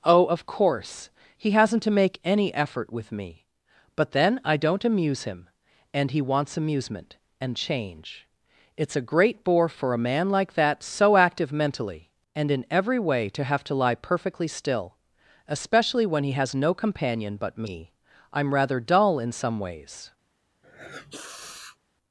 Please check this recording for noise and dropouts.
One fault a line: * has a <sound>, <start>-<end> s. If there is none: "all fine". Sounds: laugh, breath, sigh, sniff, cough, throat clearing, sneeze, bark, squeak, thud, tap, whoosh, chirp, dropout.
* has a sniff, 20.6-21.8 s